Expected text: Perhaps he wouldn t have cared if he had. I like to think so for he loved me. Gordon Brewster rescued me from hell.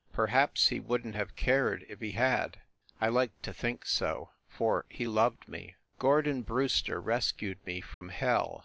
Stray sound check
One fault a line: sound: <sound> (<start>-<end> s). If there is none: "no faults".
sound: dropout (7.9-8.0 s)